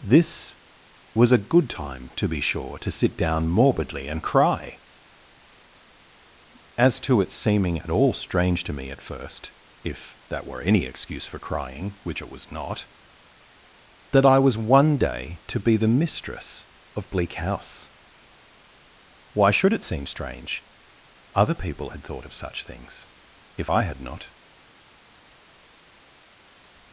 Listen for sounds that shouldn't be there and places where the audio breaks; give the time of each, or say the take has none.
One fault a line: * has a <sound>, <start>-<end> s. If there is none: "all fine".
all fine